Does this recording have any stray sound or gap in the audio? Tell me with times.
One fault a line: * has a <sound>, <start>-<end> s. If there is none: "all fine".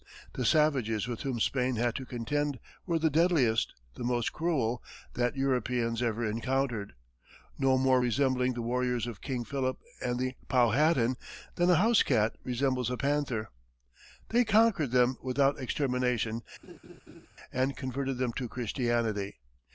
* has a laugh, 16.6-17.3 s